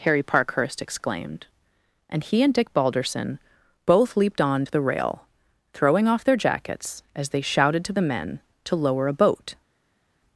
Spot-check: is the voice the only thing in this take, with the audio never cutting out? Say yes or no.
yes